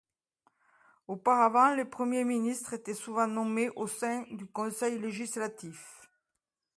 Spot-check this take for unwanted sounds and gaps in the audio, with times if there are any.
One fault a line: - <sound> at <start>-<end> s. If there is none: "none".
none